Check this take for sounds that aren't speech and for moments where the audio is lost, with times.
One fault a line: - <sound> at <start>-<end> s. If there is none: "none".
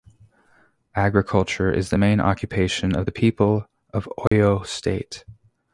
- dropout at 4.3-4.3 s